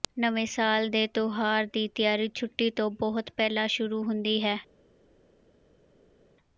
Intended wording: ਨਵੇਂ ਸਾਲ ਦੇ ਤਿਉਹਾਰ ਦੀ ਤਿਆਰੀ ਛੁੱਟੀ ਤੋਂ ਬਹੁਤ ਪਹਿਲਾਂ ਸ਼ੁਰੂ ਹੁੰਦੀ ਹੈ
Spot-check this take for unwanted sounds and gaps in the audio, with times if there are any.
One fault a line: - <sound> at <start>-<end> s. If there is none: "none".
none